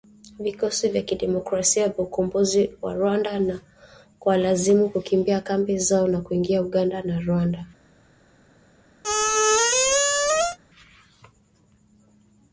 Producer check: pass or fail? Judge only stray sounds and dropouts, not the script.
fail